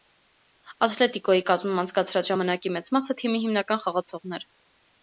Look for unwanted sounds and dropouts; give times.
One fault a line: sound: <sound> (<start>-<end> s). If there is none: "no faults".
no faults